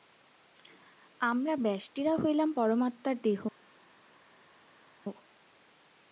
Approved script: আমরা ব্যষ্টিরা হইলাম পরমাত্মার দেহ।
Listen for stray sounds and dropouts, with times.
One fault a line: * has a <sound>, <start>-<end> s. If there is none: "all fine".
all fine